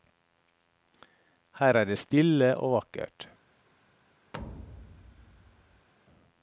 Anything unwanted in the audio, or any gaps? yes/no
yes